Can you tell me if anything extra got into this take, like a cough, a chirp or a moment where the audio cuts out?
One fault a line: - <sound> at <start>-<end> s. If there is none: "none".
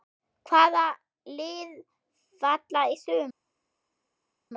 none